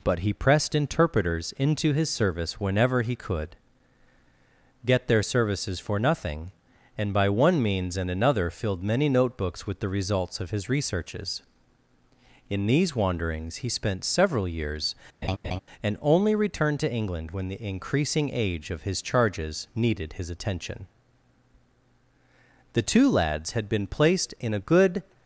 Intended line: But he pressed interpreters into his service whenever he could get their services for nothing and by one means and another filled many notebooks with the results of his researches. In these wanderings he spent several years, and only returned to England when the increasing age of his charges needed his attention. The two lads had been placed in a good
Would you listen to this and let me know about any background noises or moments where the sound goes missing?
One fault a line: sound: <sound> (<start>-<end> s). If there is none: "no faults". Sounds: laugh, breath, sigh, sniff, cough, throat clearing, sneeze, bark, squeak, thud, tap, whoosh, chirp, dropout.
sound: laugh (15.2-15.6 s)